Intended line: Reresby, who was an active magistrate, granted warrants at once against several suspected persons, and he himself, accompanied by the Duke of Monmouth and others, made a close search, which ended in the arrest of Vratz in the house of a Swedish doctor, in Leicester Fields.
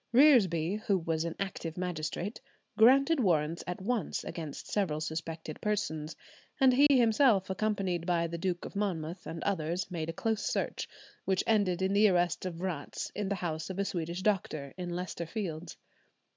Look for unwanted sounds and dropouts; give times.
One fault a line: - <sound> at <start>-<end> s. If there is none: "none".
- dropout at 6.9-6.9 s